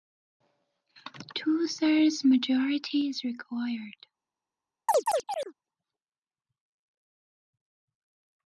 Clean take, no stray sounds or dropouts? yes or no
no